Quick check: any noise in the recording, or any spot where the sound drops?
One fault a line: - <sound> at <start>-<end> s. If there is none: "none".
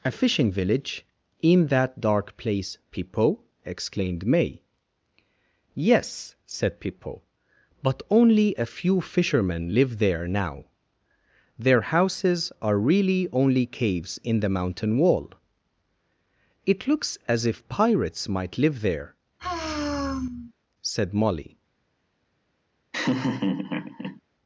- sigh at 19.4-20.5 s
- laugh at 22.9-24.2 s